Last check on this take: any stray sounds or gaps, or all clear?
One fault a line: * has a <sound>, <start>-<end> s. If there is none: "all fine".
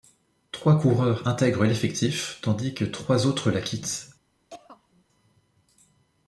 * has a throat clearing, 4.5-5.0 s